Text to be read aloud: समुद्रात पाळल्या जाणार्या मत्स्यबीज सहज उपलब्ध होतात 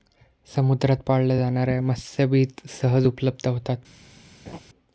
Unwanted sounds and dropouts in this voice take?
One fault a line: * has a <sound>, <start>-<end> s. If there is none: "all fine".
* has a laugh, 4.5-4.6 s